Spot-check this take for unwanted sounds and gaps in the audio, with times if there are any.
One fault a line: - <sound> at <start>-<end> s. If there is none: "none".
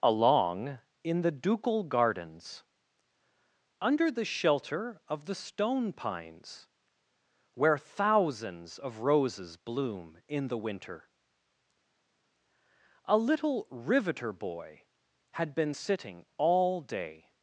none